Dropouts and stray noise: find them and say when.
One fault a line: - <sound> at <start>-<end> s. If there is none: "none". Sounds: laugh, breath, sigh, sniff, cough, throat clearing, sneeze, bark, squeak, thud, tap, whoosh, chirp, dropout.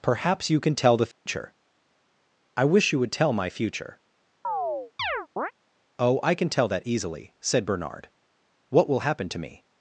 - dropout at 1.1-1.3 s
- chirp at 4.4-5.5 s